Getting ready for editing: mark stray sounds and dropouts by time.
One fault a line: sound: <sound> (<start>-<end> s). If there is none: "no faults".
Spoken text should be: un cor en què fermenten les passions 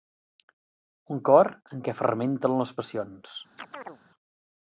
sound: chirp (3.6-4.0 s)